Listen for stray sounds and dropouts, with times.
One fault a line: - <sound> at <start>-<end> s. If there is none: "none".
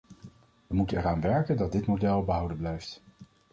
none